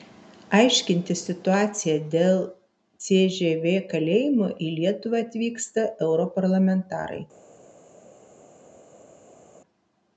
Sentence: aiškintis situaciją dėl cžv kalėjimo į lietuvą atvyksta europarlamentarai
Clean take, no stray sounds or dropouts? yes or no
yes